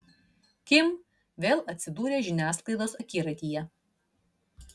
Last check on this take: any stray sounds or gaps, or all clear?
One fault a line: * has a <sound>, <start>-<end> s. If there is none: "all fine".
all fine